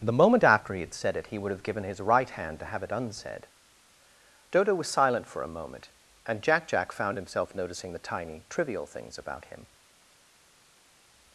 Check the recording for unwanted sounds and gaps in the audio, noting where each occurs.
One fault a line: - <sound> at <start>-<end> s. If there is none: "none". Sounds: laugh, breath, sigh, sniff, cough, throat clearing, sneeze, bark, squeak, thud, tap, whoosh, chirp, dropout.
none